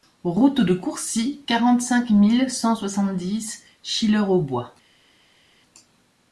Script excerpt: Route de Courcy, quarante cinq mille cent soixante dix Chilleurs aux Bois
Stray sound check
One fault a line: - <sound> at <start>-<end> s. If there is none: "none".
none